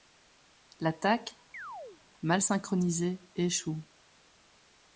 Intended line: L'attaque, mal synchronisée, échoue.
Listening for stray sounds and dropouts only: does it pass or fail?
fail